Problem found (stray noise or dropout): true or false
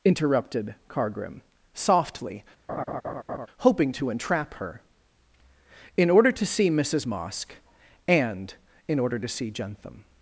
true